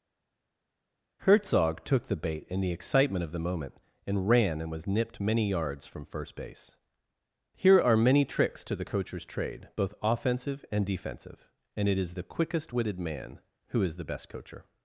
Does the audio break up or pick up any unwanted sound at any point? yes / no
no